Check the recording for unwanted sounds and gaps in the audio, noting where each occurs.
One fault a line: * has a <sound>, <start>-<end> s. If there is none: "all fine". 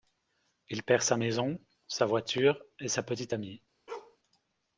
* has a bark, 3.9-4.2 s